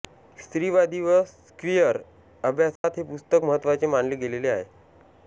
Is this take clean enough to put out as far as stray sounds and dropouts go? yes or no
no